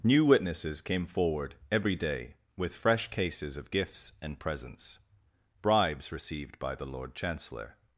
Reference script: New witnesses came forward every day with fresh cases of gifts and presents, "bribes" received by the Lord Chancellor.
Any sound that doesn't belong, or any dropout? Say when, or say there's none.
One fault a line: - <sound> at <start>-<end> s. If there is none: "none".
none